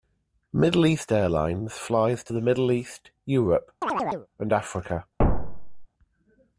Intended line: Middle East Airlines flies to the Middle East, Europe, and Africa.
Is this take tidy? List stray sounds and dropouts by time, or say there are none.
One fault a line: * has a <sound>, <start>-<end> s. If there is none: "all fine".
* has a chirp, 3.8-4.3 s
* has a thud, 5.2-5.9 s